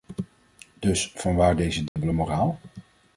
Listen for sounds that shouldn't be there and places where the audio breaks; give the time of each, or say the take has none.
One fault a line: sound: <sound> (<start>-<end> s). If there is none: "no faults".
sound: dropout (1.9-2.0 s)